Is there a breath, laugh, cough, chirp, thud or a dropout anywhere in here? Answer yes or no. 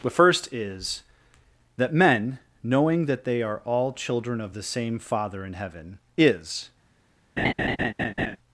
yes